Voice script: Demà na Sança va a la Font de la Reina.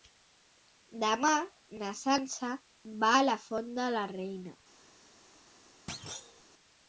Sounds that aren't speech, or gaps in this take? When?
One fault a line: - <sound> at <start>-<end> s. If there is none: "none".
- thud at 5.9-6.4 s